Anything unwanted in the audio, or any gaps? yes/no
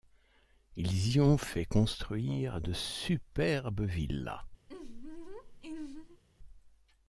yes